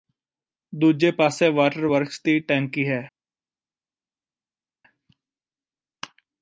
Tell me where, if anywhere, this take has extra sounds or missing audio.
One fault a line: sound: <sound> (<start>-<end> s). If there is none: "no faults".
no faults